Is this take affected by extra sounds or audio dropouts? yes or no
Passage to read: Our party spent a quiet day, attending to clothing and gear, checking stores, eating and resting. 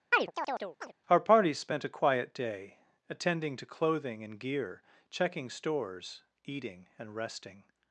yes